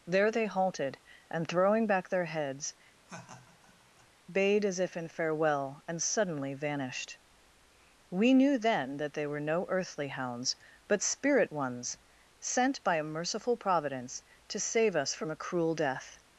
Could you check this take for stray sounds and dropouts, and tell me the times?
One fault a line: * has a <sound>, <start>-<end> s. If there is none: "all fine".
* has a laugh, 3.0-4.1 s